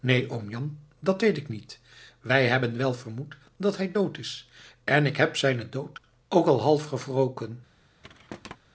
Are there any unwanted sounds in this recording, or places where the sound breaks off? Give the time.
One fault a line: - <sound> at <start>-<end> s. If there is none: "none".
- thud at 8.0-8.6 s